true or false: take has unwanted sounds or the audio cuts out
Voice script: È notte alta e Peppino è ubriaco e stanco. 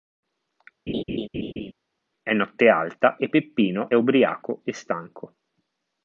true